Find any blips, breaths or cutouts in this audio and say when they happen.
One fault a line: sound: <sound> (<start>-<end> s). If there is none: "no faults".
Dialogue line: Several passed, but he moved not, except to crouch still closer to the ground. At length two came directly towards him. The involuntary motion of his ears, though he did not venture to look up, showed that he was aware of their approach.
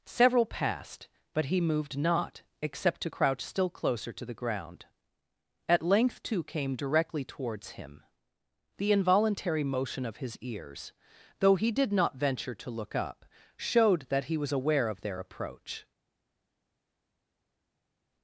no faults